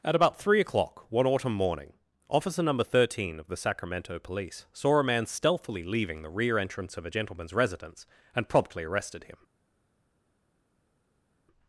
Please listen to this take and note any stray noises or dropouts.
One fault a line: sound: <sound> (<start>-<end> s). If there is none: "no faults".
no faults